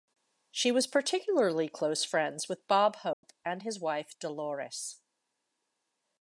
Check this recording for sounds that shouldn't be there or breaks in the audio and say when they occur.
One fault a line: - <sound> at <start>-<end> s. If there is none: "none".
- dropout at 3.1-3.2 s